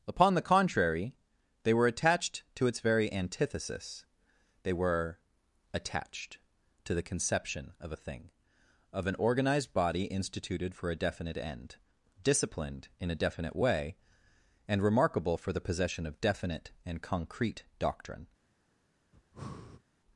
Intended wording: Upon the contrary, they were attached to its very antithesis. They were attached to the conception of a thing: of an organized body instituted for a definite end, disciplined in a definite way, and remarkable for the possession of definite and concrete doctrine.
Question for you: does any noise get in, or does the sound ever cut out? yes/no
yes